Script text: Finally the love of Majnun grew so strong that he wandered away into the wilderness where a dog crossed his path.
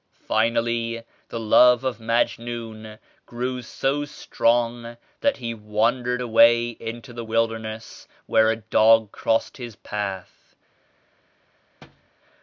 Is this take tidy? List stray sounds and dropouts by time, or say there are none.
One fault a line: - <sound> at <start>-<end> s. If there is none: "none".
- thud at 11.8-12.1 s